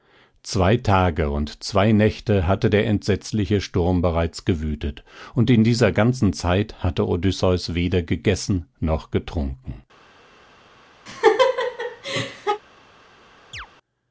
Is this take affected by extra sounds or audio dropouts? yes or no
yes